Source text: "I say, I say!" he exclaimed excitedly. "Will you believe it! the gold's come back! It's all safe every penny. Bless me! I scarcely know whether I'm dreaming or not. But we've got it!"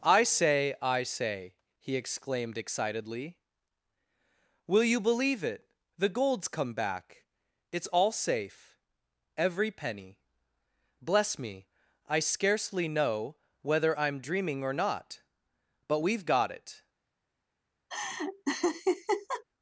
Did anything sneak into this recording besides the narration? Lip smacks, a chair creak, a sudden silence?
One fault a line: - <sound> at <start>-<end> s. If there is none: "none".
- laugh at 17.9-19.4 s